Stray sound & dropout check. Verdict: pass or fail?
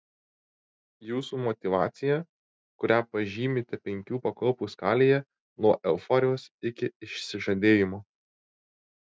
pass